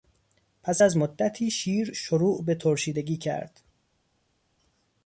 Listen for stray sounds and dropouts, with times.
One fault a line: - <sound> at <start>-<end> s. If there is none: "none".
none